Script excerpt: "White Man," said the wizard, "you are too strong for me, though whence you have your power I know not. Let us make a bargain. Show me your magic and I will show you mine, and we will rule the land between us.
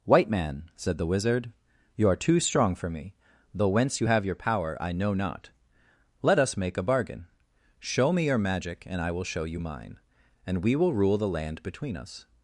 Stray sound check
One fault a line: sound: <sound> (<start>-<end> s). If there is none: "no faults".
no faults